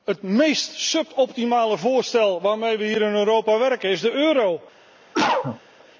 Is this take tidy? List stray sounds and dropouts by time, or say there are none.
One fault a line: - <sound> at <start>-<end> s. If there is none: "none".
- cough at 5.1-5.6 s